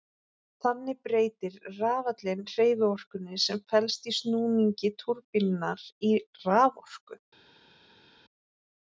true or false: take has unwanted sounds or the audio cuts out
false